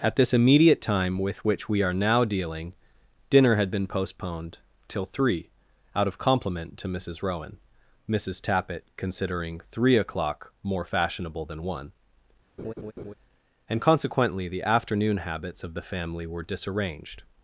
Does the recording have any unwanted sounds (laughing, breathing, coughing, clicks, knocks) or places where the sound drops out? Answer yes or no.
yes